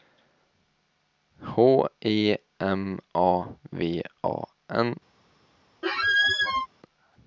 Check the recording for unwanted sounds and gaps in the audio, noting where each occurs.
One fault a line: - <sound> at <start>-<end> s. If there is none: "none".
- squeak at 5.8-6.7 s